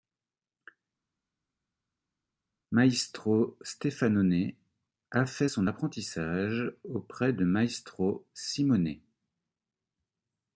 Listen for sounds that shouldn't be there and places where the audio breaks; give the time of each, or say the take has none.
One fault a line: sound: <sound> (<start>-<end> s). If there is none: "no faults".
no faults